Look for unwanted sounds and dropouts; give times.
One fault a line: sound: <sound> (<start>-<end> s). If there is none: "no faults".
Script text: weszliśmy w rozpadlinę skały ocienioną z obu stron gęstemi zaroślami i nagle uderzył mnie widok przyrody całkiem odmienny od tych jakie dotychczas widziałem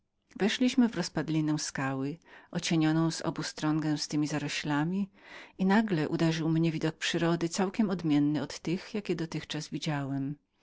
no faults